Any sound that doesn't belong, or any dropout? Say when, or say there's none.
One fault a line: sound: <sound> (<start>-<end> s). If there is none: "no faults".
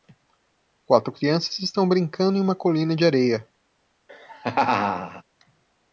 sound: laugh (4.1-5.2 s)